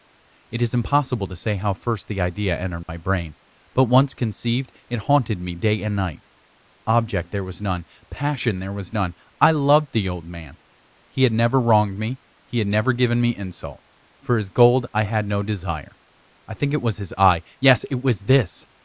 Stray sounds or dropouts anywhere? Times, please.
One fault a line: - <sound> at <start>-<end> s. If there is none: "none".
- dropout at 2.8-2.9 s